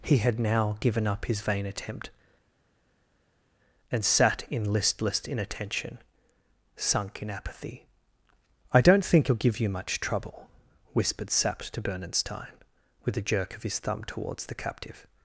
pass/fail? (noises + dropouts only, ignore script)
pass